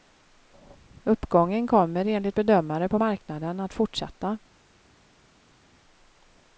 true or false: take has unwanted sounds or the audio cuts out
false